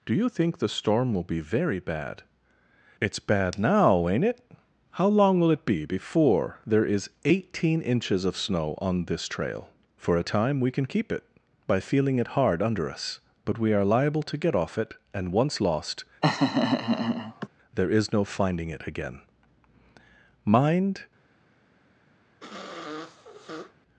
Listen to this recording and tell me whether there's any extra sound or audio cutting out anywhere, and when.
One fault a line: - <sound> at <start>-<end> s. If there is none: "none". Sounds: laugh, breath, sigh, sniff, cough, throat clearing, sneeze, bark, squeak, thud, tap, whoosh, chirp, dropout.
- laugh at 16.2-17.5 s
- sniff at 22.4-23.7 s